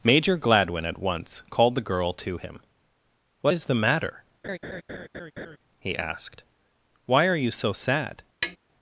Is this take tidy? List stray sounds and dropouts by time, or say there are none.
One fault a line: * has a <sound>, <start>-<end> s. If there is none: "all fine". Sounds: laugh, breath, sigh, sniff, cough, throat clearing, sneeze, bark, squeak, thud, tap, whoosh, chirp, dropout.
* has a laugh, 4.4-5.6 s
* has a tap, 8.4-8.6 s